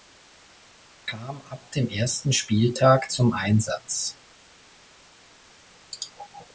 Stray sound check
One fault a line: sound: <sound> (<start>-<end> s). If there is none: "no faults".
no faults